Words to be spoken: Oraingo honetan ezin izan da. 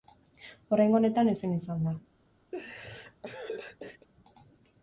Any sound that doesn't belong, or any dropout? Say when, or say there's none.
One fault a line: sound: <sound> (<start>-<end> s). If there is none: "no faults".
sound: laugh (2.5-4.1 s)